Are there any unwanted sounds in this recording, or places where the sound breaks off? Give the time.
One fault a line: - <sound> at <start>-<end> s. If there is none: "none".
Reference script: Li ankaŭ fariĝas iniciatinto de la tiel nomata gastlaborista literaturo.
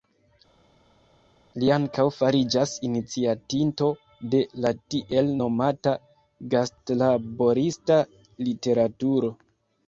none